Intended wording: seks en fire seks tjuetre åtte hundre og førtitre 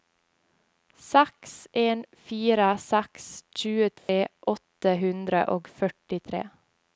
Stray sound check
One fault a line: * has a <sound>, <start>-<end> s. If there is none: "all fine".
* has a dropout, 4.0-4.1 s